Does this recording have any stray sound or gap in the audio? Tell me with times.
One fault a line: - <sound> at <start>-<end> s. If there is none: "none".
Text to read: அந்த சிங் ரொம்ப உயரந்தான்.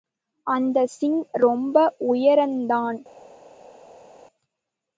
none